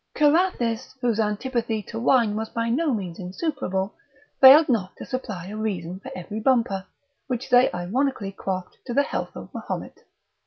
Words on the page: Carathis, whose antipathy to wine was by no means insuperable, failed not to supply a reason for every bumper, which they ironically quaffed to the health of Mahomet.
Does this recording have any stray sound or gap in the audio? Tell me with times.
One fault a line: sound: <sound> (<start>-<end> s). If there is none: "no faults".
no faults